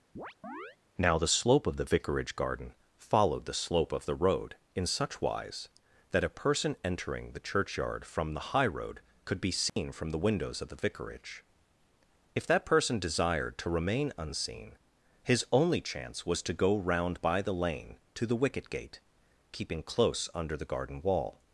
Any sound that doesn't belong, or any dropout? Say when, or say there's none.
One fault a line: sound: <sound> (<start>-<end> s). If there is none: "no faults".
sound: chirp (0.2-0.8 s)
sound: dropout (9.7-9.8 s)